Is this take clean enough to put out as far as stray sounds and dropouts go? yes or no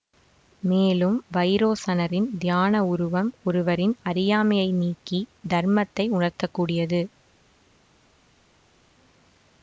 yes